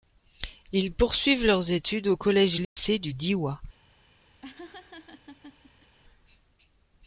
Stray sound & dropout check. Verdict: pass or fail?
fail